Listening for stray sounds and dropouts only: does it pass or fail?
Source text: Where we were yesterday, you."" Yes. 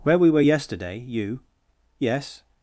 pass